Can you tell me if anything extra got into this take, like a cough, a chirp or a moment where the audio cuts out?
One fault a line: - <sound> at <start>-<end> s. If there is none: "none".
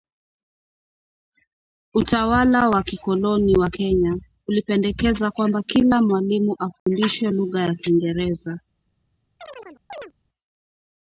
- dropout at 6.8-6.9 s
- chirp at 9.4-10.1 s